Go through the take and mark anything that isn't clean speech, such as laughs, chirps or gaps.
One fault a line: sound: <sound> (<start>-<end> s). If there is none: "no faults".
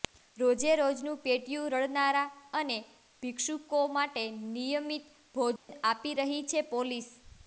sound: dropout (5.6-5.7 s)